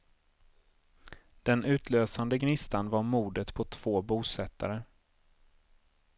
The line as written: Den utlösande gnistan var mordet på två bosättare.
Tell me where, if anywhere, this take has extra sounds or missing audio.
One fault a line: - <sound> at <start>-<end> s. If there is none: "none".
none